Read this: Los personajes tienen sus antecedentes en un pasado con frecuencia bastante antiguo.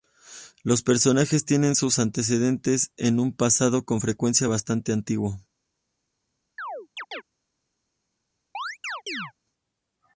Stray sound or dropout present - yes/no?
yes